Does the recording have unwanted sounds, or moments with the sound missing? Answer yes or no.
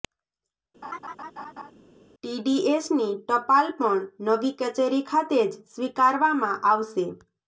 yes